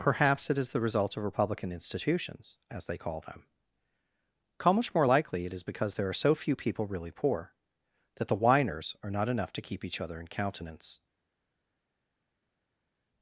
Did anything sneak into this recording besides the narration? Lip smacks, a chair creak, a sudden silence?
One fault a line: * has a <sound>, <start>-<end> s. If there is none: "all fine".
all fine